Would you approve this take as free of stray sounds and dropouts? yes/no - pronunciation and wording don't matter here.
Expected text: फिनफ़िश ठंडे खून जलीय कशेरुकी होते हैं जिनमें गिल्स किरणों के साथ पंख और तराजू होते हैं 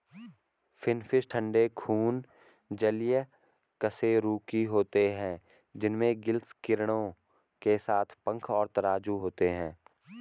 yes